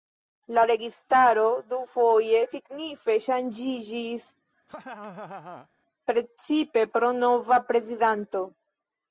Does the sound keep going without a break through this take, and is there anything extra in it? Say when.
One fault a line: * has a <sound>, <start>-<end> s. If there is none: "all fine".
* has a laugh, 4.7-5.7 s